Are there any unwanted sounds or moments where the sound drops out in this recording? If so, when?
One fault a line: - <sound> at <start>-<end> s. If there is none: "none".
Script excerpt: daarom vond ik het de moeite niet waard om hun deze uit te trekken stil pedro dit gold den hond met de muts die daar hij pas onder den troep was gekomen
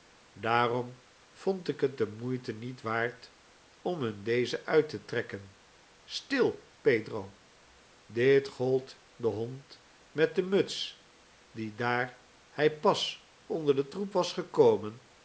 none